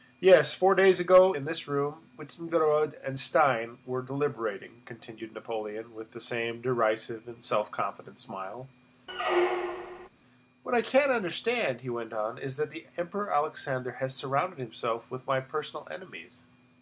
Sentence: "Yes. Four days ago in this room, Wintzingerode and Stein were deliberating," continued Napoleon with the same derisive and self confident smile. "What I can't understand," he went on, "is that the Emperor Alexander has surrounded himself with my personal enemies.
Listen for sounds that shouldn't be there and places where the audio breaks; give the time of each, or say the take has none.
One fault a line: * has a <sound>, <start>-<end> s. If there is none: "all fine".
* has a squeak, 9.1-10.1 s